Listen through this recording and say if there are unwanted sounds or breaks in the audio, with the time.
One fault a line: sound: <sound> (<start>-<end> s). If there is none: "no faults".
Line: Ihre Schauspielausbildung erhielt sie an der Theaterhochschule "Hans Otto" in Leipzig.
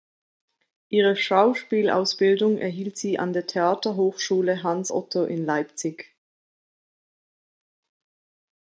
no faults